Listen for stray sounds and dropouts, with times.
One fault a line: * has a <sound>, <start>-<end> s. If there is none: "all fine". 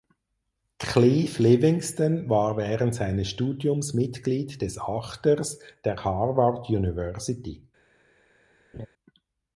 * has a laugh, 8.7-8.9 s